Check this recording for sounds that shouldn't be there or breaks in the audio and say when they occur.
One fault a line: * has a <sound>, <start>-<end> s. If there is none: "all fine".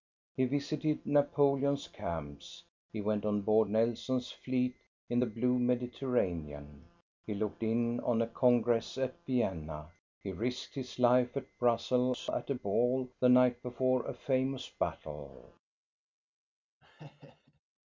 * has a laugh, 16.8-17.6 s